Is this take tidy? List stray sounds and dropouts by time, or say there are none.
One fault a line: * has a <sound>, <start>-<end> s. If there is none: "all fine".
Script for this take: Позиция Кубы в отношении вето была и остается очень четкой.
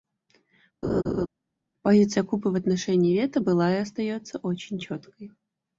* has a laugh, 0.8-1.3 s